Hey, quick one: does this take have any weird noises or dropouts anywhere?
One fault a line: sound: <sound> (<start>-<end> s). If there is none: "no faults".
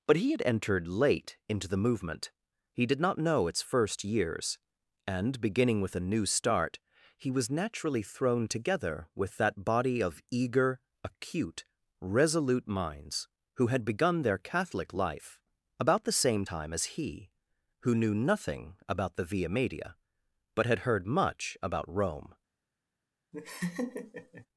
sound: laugh (23.3-24.5 s)